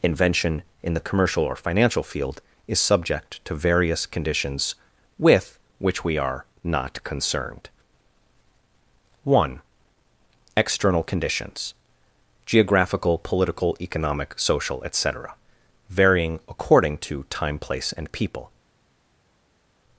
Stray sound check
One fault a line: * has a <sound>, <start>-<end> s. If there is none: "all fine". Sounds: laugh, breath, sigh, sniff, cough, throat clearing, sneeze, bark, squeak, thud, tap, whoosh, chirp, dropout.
all fine